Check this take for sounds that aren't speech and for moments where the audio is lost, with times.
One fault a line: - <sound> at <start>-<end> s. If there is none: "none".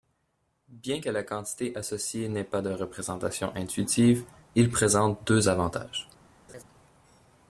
- laugh at 6.5-6.6 s